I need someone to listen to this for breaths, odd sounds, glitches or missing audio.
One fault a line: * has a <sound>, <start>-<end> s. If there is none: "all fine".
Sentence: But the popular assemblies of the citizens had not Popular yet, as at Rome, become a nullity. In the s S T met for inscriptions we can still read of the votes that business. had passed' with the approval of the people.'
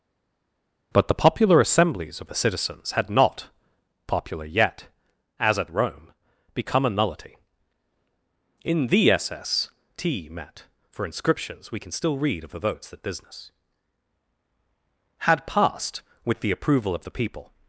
all fine